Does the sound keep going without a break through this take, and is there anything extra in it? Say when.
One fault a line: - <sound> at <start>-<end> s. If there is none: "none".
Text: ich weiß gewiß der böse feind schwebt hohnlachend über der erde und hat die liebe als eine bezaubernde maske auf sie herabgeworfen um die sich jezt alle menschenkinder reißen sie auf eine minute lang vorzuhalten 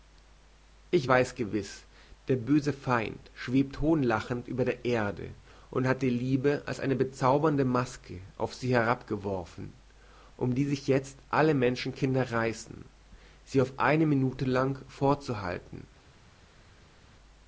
none